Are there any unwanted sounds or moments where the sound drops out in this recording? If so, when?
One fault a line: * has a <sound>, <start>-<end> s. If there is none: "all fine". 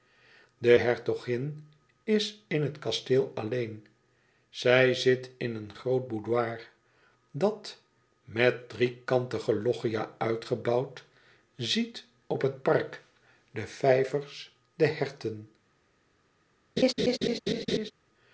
* has a laugh, 16.8-17.9 s